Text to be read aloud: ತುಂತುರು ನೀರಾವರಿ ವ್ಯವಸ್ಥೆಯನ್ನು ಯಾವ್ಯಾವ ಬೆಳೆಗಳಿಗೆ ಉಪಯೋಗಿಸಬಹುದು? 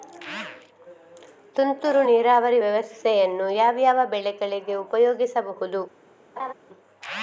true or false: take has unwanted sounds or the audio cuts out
true